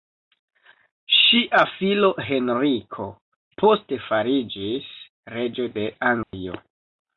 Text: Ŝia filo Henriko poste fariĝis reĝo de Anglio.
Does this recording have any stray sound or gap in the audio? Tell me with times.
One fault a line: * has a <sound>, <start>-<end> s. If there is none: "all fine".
* has a dropout, 6.2-6.3 s